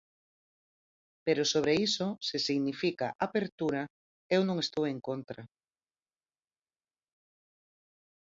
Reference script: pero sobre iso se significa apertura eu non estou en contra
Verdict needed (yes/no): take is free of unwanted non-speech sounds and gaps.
yes